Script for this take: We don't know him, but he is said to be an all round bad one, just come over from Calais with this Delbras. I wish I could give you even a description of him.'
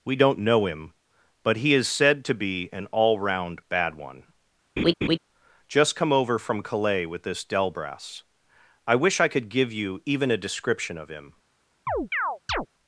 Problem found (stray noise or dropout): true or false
true